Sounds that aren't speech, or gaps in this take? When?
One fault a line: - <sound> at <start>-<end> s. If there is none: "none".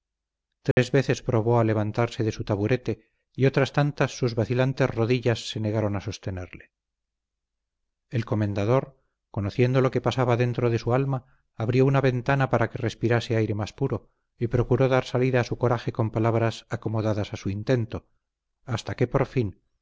- dropout at 0.7-0.8 s